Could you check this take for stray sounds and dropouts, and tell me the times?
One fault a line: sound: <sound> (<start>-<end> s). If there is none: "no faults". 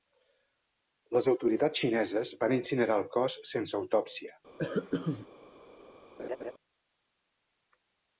sound: cough (4.6-5.3 s)
sound: laugh (6.2-6.5 s)